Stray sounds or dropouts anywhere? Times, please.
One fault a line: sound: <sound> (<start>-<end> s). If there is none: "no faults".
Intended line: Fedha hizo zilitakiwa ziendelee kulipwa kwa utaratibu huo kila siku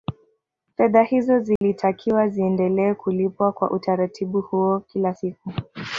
sound: dropout (1.6-1.6 s)